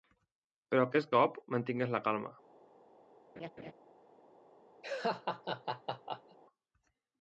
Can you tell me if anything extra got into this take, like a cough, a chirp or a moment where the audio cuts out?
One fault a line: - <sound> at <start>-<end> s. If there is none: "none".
- laugh at 3.4-3.7 s
- laugh at 4.8-6.4 s